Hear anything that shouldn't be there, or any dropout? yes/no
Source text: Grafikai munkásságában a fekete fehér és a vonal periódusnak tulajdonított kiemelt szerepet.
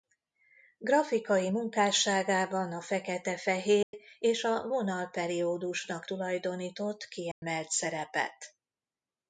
yes